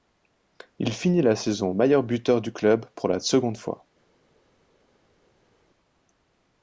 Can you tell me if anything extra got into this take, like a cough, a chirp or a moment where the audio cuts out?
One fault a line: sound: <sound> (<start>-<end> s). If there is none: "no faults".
no faults